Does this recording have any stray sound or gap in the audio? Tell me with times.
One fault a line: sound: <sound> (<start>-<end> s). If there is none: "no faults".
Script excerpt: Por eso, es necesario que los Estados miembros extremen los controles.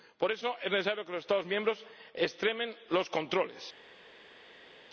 no faults